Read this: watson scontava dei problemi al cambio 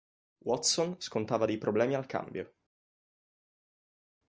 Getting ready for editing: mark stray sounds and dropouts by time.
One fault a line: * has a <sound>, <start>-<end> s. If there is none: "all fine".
all fine